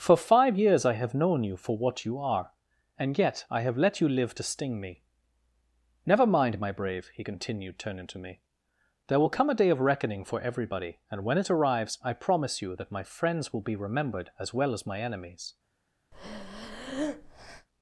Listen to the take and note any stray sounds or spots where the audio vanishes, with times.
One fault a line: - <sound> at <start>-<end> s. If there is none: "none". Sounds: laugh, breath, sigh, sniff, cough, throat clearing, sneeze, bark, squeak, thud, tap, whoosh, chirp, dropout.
- breath at 16.1-17.7 s